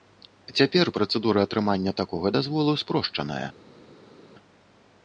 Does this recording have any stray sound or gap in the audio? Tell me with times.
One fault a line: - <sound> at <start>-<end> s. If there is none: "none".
none